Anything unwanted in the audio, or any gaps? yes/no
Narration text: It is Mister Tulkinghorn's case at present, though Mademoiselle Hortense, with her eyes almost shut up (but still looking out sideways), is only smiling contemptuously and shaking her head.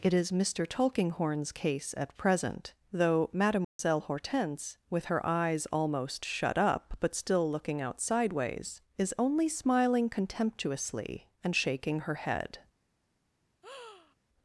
yes